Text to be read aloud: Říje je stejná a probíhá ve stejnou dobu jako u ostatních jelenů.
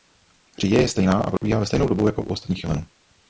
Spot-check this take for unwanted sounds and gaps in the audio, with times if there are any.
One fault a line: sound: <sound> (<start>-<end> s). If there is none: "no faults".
sound: dropout (1.4-1.4 s)